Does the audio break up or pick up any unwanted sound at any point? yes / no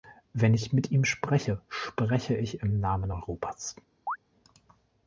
yes